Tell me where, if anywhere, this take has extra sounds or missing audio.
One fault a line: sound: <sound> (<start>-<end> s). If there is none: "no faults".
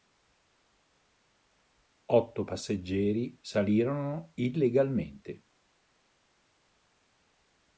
no faults